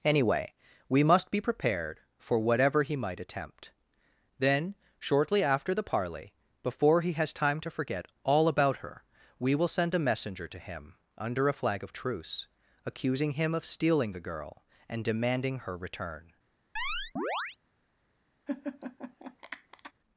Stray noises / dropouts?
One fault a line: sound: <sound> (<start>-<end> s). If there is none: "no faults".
sound: chirp (16.8-17.6 s)
sound: laugh (18.5-19.9 s)